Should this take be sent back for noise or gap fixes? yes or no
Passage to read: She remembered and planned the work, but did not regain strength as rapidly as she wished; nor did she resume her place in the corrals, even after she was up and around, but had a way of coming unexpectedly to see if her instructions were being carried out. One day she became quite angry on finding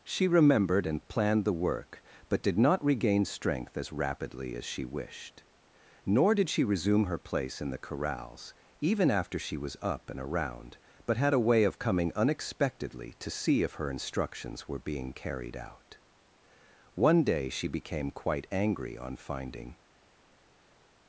no